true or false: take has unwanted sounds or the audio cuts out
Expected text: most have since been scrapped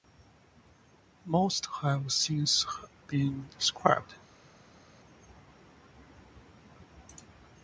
false